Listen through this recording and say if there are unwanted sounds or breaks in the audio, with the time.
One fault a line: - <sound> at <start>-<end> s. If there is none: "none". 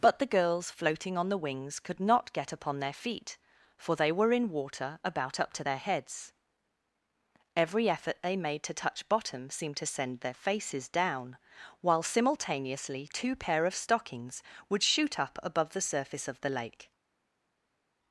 none